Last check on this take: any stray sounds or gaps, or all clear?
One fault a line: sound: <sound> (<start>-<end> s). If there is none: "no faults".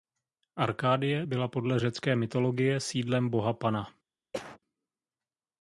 sound: cough (4.3-4.6 s)